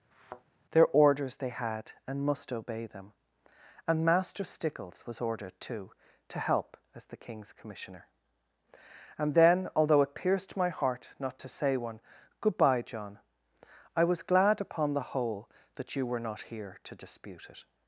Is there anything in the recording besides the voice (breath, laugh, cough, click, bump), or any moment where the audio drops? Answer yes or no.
yes